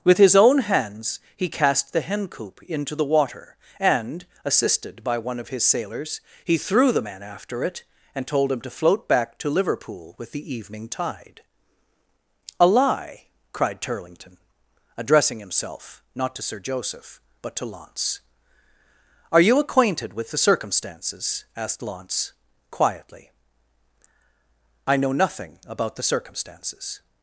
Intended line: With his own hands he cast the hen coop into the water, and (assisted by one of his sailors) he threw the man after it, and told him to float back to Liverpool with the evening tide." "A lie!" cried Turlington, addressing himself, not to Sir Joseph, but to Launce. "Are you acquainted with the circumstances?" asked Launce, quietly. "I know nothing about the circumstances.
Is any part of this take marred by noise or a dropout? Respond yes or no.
no